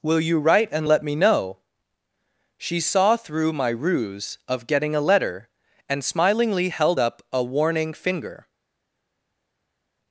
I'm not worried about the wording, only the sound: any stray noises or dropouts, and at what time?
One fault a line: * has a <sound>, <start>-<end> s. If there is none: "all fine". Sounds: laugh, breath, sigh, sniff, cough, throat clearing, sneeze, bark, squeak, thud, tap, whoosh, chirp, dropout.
all fine